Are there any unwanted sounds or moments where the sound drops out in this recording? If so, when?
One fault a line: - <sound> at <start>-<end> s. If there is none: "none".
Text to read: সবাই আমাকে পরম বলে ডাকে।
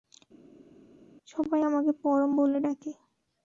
none